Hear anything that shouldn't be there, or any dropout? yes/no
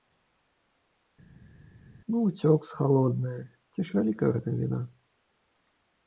no